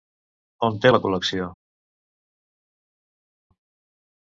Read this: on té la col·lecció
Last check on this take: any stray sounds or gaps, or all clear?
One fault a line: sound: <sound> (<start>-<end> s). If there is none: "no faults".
no faults